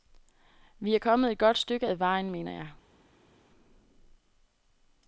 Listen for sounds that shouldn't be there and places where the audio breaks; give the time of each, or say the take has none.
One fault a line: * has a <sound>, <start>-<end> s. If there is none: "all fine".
all fine